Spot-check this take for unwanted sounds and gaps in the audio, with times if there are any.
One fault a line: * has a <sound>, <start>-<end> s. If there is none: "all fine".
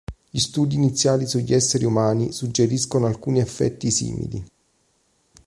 all fine